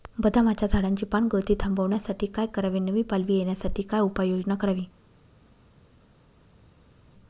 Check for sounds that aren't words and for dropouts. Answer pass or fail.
pass